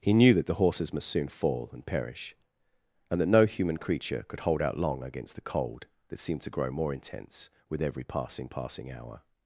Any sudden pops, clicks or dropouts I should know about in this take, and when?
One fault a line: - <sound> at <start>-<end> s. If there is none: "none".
none